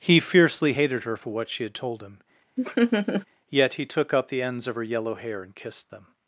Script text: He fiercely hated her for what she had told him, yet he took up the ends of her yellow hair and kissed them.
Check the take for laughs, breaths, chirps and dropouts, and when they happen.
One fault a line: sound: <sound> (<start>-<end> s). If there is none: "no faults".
sound: laugh (2.6-3.3 s)